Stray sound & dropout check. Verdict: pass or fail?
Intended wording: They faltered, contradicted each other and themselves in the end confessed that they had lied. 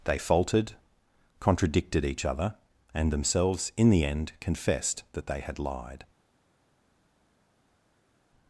pass